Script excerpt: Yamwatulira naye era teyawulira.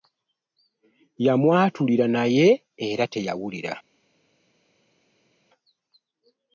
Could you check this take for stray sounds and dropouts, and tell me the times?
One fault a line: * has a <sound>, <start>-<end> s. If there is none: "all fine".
all fine